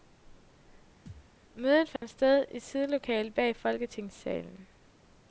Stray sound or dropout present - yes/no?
yes